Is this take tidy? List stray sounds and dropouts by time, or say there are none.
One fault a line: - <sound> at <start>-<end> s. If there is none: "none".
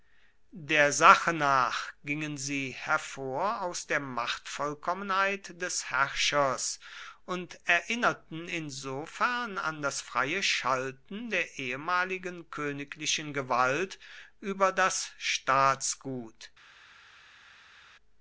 none